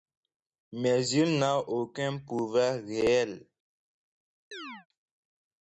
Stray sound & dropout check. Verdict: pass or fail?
fail